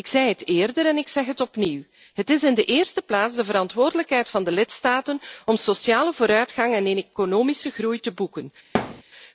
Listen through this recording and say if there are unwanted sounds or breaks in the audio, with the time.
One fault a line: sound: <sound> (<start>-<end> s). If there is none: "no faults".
sound: thud (8.7-9.0 s)